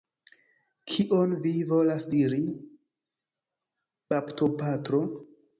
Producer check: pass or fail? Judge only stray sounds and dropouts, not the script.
pass